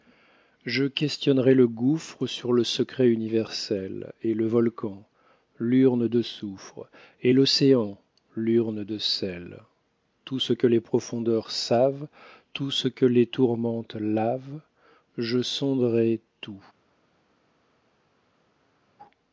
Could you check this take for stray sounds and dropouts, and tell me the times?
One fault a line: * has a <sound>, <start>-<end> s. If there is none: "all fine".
all fine